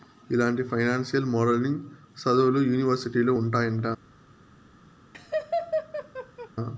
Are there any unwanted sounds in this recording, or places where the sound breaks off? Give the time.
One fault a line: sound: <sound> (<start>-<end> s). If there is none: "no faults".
sound: laugh (5.1-6.5 s)